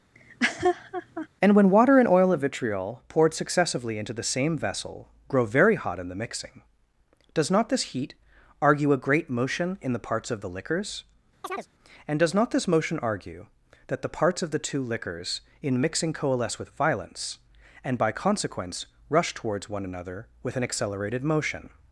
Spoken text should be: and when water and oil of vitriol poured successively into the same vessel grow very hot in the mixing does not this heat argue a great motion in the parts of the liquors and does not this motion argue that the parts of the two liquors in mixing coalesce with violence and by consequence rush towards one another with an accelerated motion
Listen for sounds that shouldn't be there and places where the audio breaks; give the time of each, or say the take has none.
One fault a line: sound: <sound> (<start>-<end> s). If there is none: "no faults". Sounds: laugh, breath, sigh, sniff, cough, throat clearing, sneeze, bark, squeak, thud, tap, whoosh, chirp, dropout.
sound: laugh (0.1-1.3 s)
sound: chirp (11.4-11.7 s)